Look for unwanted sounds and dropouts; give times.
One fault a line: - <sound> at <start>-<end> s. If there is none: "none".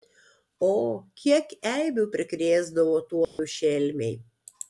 - dropout at 3.2-3.4 s